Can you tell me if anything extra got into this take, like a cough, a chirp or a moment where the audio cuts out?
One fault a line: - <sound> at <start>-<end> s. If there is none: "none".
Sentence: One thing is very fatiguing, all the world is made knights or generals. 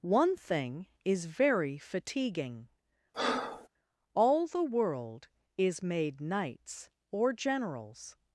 - breath at 3.1-3.7 s